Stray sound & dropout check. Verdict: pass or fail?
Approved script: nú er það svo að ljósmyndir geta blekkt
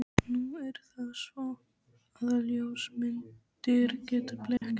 fail